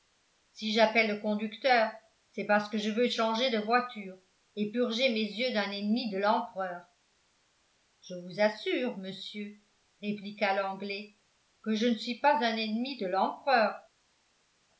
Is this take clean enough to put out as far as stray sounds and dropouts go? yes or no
yes